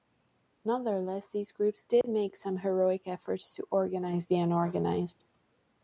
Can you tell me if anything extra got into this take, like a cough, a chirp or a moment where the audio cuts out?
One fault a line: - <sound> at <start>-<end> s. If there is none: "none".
- dropout at 2.0-2.0 s